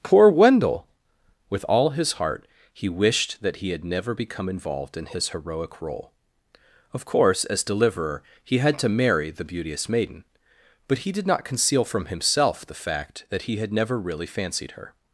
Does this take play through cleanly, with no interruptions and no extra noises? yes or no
yes